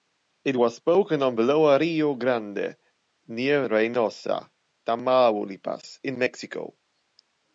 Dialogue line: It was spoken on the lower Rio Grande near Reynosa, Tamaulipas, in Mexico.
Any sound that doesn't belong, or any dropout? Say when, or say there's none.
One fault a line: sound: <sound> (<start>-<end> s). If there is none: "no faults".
no faults